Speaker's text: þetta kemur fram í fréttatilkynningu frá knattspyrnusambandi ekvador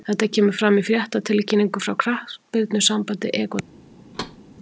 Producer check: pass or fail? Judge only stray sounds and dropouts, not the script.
fail